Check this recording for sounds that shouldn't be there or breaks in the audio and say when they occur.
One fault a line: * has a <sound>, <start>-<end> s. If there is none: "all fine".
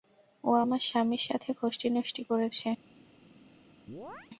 * has a chirp, 3.9-4.3 s